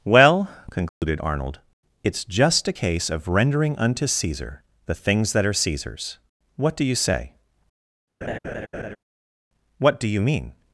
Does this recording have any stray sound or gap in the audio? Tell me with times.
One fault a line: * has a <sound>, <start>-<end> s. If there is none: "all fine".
* has a dropout, 0.9-1.0 s
* has a laugh, 8.2-9.0 s